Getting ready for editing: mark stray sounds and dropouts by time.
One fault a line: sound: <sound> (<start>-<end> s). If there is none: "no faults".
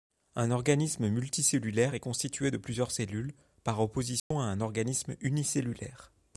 sound: dropout (4.2-4.3 s)